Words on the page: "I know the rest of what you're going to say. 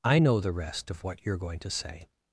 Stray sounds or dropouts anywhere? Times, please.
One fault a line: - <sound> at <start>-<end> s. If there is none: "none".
none